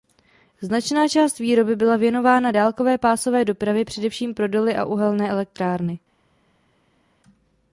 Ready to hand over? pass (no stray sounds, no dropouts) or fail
pass